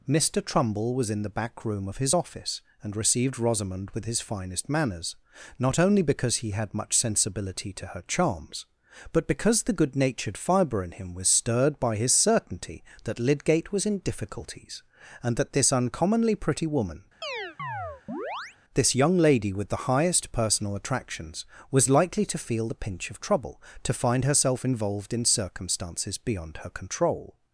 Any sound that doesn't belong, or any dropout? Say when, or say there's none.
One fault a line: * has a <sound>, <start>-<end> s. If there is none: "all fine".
* has a chirp, 17.2-18.6 s